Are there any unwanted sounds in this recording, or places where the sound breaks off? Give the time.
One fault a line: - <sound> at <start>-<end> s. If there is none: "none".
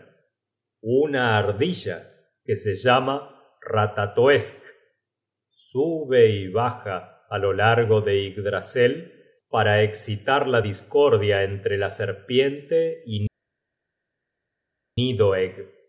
none